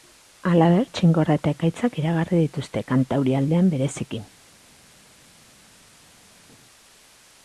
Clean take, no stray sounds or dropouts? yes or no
yes